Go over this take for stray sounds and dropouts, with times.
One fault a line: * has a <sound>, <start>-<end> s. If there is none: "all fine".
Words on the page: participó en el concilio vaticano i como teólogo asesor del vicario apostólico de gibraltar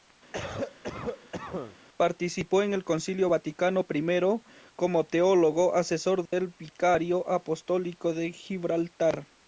* has a cough, 0.3-1.8 s
* has a dropout, 6.3-6.3 s